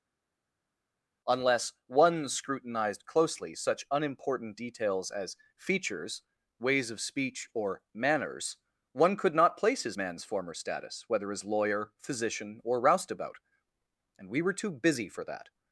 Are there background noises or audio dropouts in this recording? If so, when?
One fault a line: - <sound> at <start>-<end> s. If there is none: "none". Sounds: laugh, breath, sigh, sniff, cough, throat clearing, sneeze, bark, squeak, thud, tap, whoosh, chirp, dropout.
none